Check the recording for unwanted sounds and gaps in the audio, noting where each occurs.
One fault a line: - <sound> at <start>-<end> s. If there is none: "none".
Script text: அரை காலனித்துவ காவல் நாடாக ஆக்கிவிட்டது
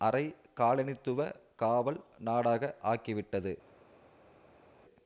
none